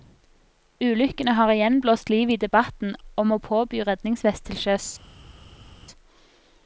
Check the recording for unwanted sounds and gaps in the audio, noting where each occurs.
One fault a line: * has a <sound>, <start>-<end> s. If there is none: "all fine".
all fine